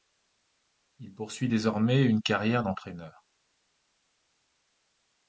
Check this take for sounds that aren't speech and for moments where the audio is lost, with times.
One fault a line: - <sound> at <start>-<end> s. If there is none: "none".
none